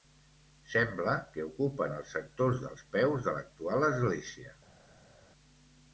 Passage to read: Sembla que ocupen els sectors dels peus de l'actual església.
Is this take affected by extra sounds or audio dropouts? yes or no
no